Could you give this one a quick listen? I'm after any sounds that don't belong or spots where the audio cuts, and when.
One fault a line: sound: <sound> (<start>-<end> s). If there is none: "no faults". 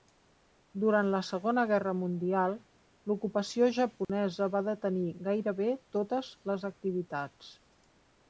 sound: dropout (4.0-4.1 s)